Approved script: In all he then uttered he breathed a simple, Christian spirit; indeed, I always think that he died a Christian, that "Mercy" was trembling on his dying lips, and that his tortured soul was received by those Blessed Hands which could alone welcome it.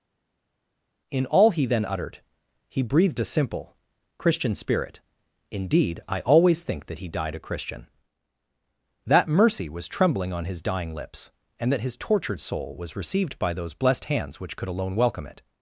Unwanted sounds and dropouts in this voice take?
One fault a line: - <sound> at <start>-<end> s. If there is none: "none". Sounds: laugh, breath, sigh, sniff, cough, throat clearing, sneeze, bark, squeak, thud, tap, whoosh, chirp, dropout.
none